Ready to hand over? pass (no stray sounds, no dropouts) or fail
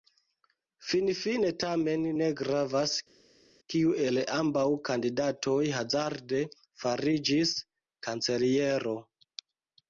pass